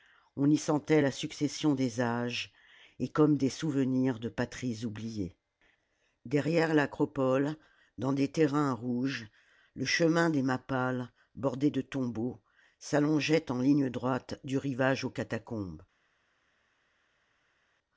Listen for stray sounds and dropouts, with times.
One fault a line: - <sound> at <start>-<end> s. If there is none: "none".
none